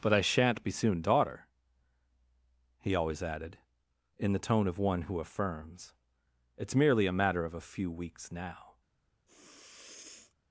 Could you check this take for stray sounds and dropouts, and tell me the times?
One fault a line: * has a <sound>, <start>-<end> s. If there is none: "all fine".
* has a sniff, 9.3-10.3 s